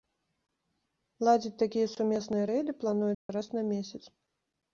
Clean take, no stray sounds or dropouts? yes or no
no